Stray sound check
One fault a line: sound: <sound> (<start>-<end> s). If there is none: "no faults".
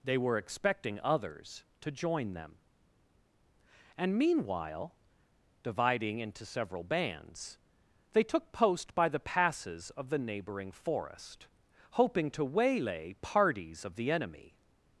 no faults